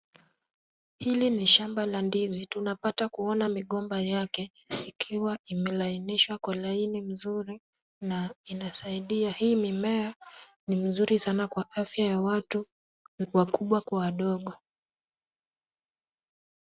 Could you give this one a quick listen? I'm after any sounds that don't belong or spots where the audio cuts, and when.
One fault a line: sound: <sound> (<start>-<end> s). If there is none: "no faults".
no faults